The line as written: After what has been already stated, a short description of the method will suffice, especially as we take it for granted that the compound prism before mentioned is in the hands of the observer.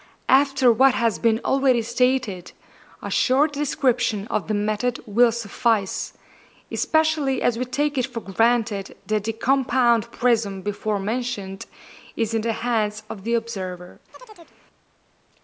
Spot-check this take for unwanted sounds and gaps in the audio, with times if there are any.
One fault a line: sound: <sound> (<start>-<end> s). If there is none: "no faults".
sound: chirp (14.1-14.6 s)